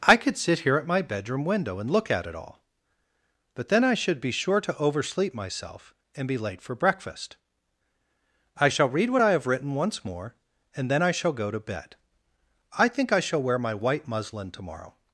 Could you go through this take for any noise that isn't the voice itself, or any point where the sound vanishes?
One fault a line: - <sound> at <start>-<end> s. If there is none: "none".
none